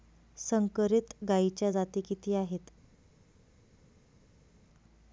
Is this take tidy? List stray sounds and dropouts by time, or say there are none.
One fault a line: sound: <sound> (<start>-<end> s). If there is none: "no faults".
no faults